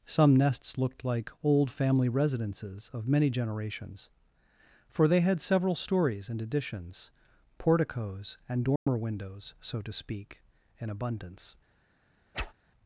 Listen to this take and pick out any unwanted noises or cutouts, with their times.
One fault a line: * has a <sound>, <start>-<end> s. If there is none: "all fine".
* has a dropout, 8.8-8.9 s
* has a whoosh, 12.3-12.5 s